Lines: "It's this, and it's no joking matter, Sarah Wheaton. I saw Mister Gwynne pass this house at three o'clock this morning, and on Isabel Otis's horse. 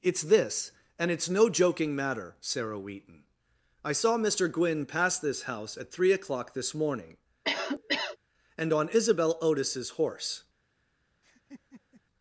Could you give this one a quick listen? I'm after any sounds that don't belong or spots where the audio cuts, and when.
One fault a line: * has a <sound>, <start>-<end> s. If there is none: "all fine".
* has a cough, 7.4-8.2 s
* has a laugh, 11.2-12.0 s